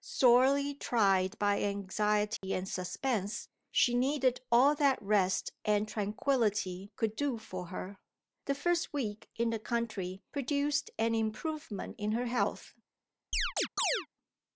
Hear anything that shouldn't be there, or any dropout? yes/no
yes